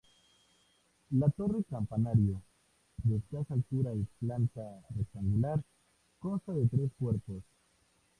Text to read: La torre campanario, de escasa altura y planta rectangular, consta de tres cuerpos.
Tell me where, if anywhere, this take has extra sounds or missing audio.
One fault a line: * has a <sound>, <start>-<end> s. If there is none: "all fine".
all fine